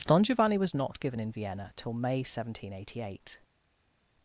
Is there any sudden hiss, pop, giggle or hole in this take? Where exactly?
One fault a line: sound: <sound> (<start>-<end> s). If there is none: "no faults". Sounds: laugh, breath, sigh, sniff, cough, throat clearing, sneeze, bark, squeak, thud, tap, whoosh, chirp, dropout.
no faults